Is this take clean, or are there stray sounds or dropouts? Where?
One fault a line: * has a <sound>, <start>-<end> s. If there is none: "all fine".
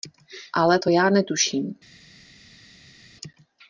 all fine